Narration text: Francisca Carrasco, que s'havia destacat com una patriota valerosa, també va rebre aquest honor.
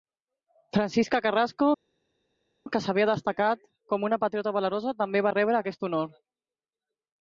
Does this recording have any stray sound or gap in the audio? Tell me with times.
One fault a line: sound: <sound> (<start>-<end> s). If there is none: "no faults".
no faults